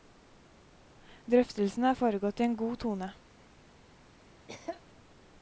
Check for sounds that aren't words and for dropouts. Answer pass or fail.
fail